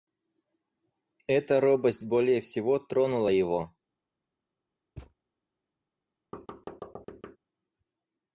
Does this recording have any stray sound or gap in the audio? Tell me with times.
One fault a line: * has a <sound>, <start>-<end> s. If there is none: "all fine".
* has a thud, 5.0-5.1 s
* has a thud, 6.3-7.4 s